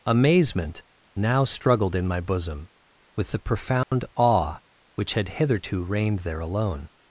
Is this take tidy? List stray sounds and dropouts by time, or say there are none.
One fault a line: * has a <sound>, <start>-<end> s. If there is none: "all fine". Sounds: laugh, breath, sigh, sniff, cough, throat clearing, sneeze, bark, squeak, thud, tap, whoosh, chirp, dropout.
* has a dropout, 3.8-3.9 s